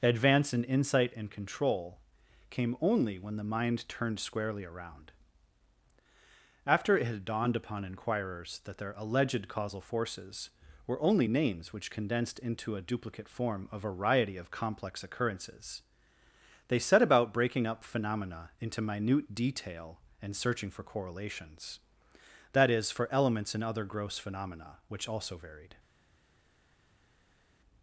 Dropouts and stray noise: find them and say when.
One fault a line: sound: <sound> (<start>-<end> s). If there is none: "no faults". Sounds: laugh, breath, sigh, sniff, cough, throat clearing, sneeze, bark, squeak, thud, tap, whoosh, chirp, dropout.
no faults